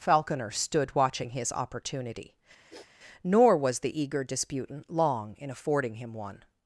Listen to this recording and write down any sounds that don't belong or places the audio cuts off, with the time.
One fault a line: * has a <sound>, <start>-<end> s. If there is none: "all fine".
* has a sniff, 2.7-2.9 s